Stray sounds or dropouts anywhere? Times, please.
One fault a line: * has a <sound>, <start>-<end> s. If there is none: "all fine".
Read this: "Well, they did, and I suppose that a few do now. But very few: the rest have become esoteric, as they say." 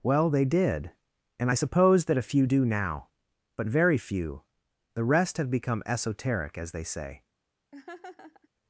* has a laugh, 7.7-8.5 s